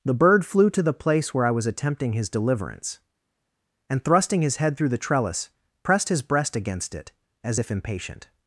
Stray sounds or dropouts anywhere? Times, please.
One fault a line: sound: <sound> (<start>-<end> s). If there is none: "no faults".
no faults